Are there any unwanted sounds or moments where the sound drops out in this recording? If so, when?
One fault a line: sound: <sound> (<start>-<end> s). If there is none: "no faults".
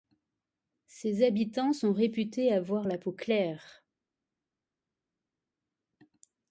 no faults